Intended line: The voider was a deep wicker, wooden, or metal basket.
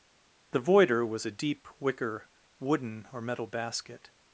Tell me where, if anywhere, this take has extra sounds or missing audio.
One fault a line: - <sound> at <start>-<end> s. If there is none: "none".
none